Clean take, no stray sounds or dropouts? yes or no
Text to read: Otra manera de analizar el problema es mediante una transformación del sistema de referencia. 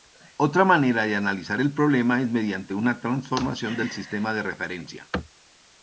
yes